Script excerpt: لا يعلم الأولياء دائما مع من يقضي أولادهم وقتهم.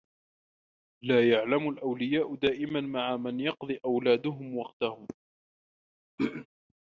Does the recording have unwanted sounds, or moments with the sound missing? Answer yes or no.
yes